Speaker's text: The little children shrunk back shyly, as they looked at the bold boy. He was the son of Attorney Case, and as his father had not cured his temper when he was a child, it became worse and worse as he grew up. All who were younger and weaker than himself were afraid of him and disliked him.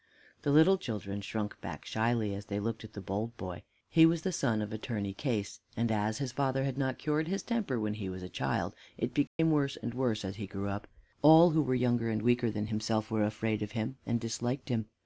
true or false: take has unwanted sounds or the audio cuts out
true